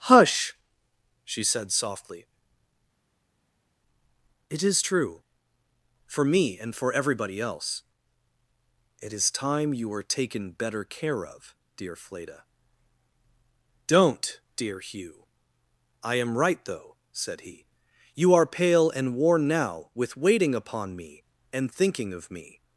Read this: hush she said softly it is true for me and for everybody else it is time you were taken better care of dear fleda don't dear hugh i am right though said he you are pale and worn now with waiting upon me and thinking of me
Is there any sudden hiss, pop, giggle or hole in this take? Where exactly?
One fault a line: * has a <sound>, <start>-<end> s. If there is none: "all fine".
all fine